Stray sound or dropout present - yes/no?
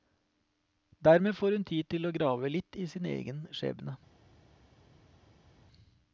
no